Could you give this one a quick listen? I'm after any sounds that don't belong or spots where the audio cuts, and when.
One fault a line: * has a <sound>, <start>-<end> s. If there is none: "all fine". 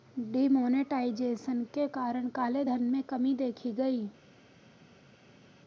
all fine